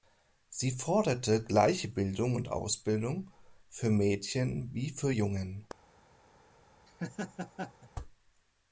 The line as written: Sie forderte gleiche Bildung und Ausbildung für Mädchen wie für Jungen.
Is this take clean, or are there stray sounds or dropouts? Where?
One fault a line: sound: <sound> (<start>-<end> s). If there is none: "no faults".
sound: laugh (6.9-7.9 s)